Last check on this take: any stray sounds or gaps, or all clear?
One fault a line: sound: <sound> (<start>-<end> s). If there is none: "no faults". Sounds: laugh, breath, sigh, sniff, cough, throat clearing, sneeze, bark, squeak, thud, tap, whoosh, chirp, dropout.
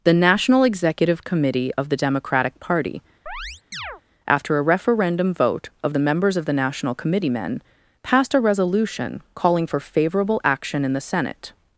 sound: chirp (3.3-4.0 s)